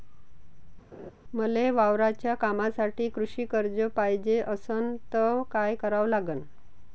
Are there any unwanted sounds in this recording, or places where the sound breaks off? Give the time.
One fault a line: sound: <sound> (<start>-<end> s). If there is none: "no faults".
sound: laugh (0.9-1.1 s)